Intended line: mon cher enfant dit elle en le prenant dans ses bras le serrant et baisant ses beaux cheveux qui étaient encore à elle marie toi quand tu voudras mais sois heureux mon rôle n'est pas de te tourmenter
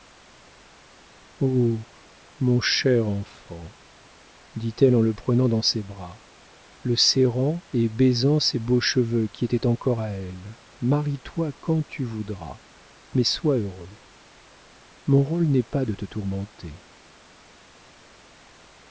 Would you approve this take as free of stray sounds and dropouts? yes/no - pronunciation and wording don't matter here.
yes